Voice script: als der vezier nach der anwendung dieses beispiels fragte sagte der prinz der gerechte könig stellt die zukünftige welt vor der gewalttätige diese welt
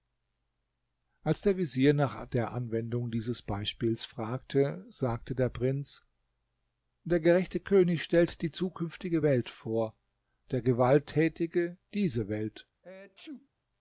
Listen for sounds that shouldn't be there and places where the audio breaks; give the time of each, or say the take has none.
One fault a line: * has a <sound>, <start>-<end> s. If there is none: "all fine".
* has a sneeze, 12.8-13.5 s